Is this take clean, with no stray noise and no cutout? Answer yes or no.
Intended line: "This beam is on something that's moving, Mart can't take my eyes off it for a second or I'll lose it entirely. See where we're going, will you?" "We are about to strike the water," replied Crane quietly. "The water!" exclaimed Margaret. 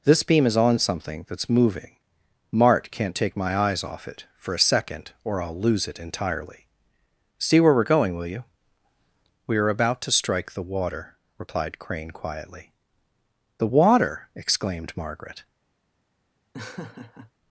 no